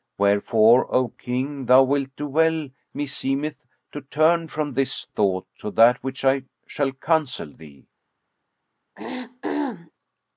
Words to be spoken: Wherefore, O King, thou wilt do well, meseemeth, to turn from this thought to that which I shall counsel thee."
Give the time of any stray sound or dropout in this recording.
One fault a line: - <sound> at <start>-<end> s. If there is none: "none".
- throat clearing at 9.0-9.9 s